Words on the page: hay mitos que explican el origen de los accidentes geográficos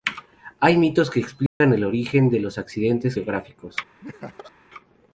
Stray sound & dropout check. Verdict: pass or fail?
fail